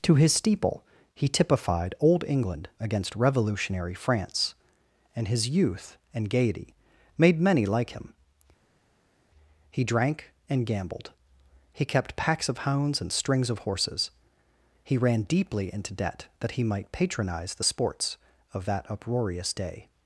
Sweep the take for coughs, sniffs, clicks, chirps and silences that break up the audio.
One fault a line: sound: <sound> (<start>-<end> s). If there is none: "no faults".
no faults